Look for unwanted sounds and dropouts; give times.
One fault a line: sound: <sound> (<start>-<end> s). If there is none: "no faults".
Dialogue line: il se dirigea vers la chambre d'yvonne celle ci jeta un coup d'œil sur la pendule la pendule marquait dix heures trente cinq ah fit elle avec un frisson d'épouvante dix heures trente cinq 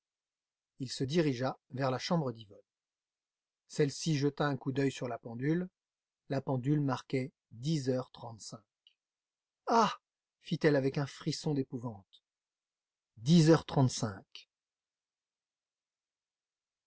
no faults